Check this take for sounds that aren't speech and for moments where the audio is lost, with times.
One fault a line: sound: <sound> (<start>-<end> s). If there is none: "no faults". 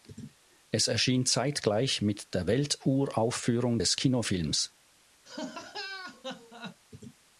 sound: laugh (5.2-6.8 s)